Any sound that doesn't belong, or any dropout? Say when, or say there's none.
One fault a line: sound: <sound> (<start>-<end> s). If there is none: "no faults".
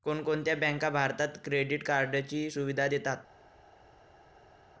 no faults